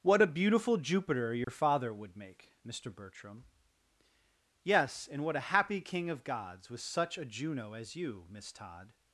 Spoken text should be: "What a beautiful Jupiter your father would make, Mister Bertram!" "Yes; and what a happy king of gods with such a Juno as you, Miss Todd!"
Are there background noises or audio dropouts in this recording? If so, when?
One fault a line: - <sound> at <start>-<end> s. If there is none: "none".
- dropout at 1.4-1.5 s